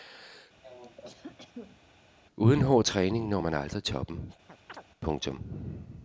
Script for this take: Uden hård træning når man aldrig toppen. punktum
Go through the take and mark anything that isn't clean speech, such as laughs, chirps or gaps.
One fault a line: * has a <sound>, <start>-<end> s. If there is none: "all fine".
* has a cough, 0.6-1.8 s
* has a chirp, 4.5-4.8 s